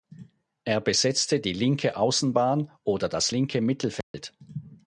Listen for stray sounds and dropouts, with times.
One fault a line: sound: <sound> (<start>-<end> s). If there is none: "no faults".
sound: dropout (4.0-4.1 s)